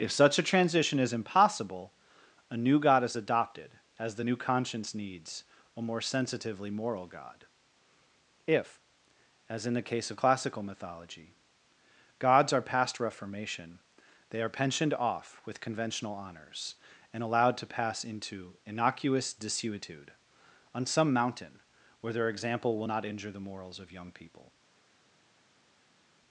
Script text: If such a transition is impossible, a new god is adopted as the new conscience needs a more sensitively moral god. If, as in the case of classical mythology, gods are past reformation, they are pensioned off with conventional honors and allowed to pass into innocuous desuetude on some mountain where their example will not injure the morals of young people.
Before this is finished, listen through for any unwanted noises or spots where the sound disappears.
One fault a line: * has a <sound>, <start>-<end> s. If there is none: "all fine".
all fine